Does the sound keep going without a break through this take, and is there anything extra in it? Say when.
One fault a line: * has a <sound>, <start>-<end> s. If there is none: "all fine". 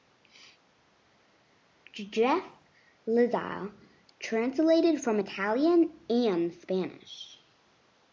all fine